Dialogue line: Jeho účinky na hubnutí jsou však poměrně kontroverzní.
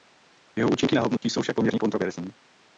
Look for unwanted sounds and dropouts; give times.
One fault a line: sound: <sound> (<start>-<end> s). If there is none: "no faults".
sound: dropout (1.2-1.2 s)